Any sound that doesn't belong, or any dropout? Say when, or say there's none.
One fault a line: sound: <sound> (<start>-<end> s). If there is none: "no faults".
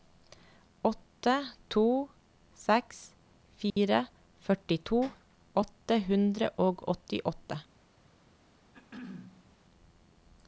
sound: dropout (3.7-3.8 s)
sound: throat clearing (8.7-9.6 s)